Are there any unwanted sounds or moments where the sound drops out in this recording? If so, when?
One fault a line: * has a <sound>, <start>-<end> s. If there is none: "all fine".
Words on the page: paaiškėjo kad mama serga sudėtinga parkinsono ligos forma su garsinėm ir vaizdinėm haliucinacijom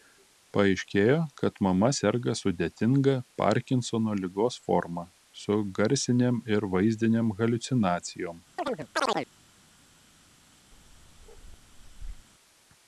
* has a chirp, 8.6-9.3 s
* has a bark, 10.7-12.3 s